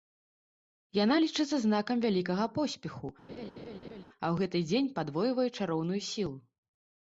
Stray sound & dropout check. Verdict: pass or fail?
fail